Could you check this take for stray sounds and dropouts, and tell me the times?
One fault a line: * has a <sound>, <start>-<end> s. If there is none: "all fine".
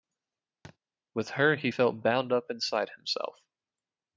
* has a thud, 0.6-0.8 s